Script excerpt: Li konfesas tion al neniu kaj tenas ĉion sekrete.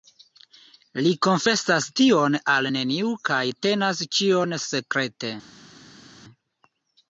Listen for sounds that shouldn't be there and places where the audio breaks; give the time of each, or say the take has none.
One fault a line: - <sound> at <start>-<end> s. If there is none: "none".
none